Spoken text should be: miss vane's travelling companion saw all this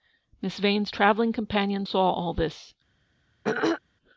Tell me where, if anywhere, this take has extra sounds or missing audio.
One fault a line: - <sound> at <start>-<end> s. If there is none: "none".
- throat clearing at 3.4-3.8 s